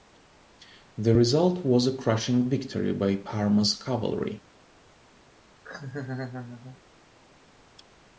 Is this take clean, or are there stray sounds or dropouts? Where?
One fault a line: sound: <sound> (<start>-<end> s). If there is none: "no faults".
sound: laugh (5.6-6.8 s)